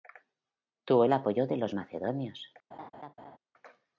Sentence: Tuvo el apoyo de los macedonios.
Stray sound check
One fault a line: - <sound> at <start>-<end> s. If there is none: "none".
- laugh at 2.7-3.4 s